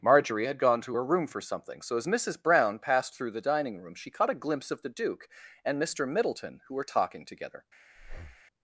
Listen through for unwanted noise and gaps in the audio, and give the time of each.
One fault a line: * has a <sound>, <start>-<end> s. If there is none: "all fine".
* has a breath, 8.0-8.4 s